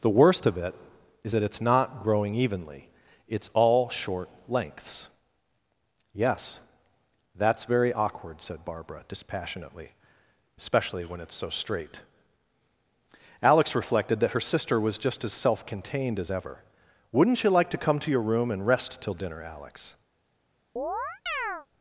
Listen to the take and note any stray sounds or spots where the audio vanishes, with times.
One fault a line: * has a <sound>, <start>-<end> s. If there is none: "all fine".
* has a chirp, 20.8-21.7 s